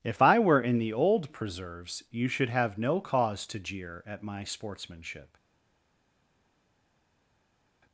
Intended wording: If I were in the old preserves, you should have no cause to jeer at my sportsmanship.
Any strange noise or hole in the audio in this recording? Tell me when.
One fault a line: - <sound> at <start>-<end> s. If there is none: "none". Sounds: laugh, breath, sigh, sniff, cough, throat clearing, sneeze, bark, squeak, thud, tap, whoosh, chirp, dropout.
none